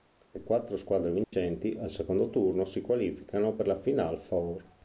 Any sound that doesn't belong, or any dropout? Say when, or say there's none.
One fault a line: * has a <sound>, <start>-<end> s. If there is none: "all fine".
* has a dropout, 1.2-1.3 s